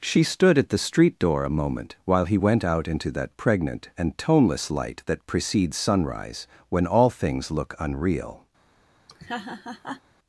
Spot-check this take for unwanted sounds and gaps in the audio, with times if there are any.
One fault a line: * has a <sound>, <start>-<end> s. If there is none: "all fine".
* has a laugh, 9.1-10.0 s